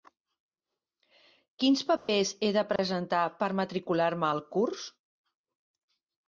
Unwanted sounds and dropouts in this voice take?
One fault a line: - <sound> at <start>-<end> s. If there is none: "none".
- dropout at 2.0-2.1 s
- dropout at 2.8-2.8 s